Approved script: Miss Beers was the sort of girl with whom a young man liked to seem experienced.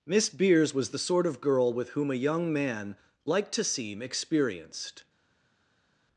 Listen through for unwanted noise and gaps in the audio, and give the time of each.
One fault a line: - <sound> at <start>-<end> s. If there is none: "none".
none